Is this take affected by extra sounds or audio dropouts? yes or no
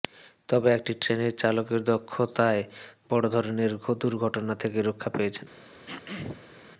yes